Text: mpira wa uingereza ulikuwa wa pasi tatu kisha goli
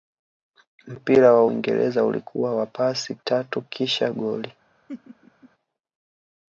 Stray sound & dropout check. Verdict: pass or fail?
fail